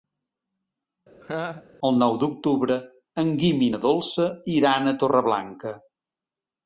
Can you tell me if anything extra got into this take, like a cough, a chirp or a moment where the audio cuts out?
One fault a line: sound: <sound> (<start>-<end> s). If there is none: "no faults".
sound: laugh (1.2-1.7 s)